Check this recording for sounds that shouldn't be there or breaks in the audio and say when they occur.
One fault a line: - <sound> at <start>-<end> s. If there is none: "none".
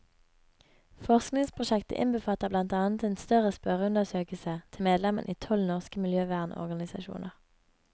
none